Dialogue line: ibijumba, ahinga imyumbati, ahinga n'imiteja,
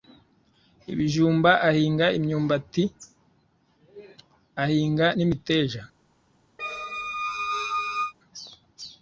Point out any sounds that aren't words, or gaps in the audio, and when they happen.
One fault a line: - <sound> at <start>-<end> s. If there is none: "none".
- squeak at 6.6-8.1 s